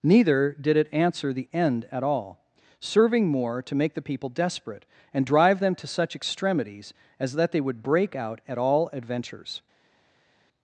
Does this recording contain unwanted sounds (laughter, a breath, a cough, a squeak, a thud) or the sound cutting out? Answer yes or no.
no